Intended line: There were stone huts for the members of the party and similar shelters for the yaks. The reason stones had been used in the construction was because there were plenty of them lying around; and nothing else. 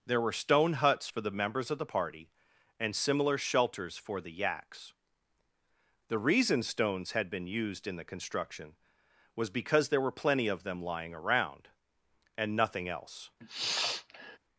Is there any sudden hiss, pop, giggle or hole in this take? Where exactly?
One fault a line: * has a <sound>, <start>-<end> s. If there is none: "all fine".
* has a sniff, 13.4-14.4 s